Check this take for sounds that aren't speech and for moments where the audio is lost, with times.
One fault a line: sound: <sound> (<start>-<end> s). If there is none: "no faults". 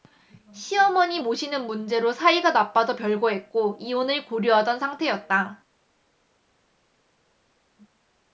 no faults